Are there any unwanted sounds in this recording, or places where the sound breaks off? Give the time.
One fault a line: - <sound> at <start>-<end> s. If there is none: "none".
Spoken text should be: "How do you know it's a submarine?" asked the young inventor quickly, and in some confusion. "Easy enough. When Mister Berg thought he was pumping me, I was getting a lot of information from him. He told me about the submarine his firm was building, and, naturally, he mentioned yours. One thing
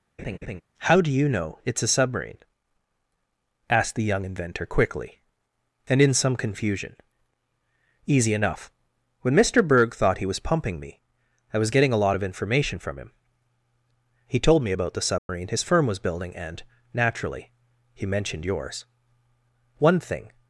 - laugh at 0.2-0.6 s
- dropout at 15.2-15.3 s